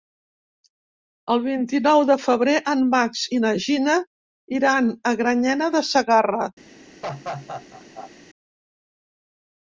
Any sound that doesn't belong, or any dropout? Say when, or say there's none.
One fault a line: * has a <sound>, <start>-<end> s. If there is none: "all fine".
* has a laugh, 7.0-8.1 s